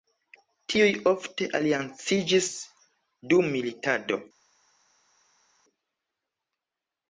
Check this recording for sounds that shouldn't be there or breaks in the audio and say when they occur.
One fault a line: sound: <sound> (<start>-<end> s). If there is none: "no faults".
no faults